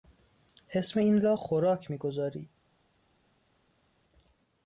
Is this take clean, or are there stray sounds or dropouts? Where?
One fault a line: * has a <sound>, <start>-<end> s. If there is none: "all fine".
all fine